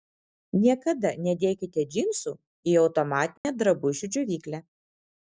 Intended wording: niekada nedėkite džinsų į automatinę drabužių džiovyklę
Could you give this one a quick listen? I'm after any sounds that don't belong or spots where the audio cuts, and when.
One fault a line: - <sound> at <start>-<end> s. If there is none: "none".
- dropout at 3.4-3.4 s